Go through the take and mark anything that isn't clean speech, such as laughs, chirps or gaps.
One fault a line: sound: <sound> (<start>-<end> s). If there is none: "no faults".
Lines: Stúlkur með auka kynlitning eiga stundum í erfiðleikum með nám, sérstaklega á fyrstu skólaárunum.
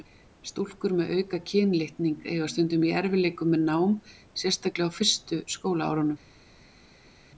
no faults